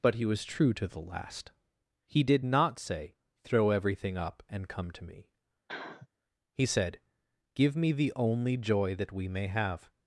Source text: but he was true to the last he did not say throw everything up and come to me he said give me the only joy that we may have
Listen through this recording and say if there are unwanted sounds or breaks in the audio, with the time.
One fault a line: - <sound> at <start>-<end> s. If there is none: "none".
- sniff at 5.7-6.1 s